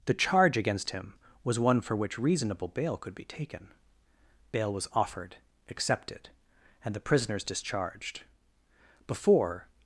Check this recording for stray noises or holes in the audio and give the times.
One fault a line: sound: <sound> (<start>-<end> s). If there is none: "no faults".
no faults